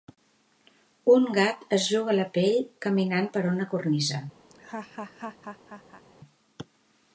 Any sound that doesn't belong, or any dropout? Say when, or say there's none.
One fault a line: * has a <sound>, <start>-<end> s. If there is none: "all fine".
* has a laugh, 4.5-6.0 s